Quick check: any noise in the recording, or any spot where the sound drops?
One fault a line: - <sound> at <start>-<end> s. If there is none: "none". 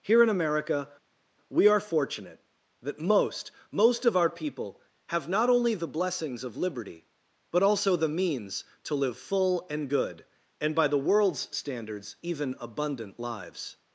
none